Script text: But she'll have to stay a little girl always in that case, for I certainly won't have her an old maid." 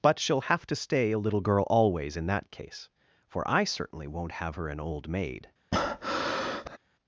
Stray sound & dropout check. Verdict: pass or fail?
fail